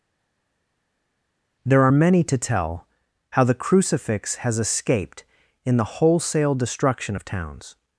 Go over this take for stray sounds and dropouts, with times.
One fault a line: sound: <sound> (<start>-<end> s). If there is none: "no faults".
no faults